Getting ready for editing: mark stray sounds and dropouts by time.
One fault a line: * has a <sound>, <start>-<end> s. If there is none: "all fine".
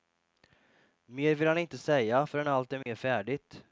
* has a dropout, 2.8-2.9 s